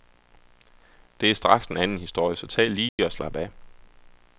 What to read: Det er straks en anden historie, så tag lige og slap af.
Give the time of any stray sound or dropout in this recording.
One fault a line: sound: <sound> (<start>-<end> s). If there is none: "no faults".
sound: dropout (2.9-3.0 s)